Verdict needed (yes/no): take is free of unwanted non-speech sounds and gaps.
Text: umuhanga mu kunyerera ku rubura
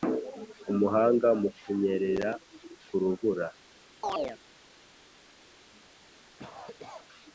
no